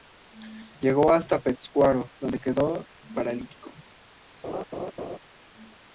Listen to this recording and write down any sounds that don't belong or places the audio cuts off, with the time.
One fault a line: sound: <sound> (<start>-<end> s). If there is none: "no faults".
sound: laugh (4.4-5.2 s)